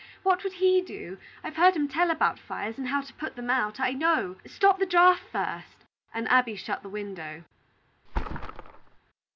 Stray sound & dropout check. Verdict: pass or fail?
fail